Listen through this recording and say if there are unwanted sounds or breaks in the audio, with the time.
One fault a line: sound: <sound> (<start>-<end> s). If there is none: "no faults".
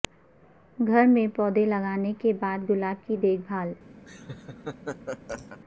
sound: laugh (4.1-5.6 s)